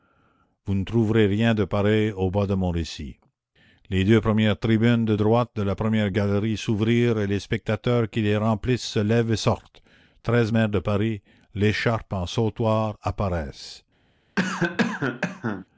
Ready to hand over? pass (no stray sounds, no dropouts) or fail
fail